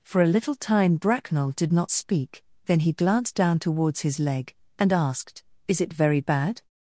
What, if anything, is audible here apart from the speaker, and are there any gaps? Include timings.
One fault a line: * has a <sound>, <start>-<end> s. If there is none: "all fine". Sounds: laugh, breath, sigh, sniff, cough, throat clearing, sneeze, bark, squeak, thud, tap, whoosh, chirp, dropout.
all fine